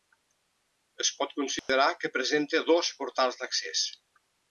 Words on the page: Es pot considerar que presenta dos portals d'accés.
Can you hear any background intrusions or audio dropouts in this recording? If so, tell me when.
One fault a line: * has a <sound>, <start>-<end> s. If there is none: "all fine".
* has a dropout, 1.6-1.7 s